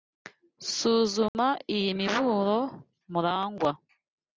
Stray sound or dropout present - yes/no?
yes